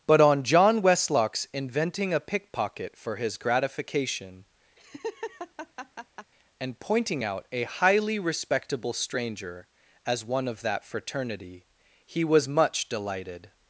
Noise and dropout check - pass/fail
fail